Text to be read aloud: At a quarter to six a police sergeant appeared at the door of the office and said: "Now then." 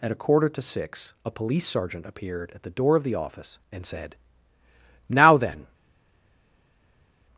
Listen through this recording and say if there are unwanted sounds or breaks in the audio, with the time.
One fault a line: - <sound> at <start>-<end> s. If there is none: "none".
none